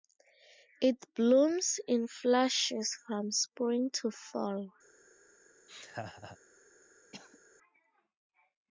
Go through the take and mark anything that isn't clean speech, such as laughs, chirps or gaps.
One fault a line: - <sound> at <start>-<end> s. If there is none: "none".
- laugh at 5.7-6.4 s
- cough at 7.1-7.4 s